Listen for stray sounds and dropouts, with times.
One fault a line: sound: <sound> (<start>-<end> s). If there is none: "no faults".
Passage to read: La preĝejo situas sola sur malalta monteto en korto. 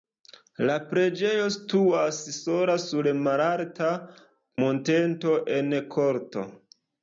no faults